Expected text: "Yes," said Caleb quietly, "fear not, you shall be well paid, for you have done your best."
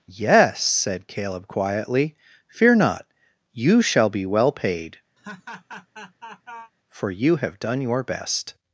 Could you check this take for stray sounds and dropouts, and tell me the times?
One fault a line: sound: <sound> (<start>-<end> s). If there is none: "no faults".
sound: laugh (5.2-6.7 s)